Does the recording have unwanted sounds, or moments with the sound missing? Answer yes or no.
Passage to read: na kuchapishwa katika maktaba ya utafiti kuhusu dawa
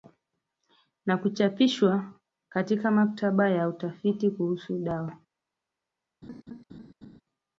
yes